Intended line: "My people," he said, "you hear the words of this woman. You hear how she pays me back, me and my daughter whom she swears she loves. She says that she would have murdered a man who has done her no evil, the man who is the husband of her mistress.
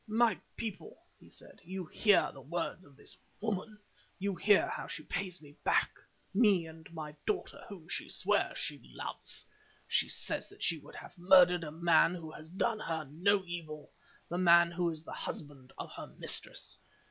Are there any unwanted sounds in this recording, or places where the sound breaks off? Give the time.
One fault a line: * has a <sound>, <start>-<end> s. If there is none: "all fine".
all fine